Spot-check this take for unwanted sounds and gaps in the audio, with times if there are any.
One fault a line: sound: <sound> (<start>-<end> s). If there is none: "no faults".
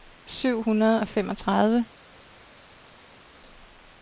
no faults